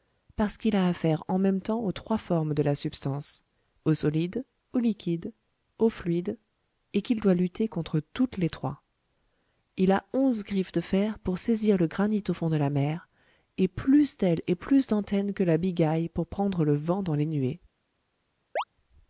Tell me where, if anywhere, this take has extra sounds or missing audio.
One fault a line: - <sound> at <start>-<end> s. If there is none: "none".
- chirp at 18.6-18.6 s